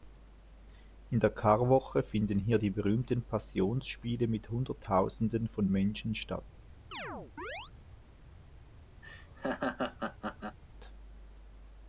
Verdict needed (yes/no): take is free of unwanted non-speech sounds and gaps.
no